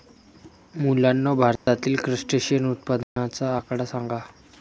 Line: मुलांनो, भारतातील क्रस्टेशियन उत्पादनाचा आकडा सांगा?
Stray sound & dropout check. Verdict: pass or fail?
fail